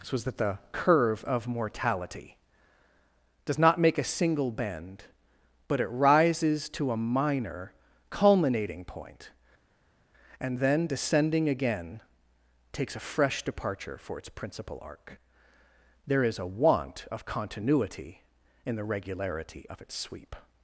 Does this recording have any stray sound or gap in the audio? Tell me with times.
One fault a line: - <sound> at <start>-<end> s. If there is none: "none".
none